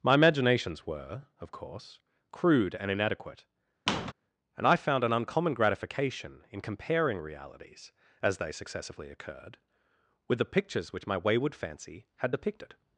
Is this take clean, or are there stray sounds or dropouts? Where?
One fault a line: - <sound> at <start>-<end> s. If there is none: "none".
- squeak at 3.9-4.1 s